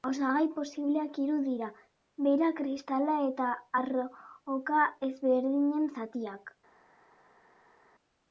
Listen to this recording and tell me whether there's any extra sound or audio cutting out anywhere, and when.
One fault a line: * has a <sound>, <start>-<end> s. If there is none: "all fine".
all fine